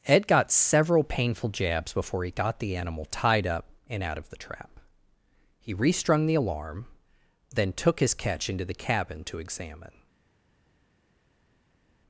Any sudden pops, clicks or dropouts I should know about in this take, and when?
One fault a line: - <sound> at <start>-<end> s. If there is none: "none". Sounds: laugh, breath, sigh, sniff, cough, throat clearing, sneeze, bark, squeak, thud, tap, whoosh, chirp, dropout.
none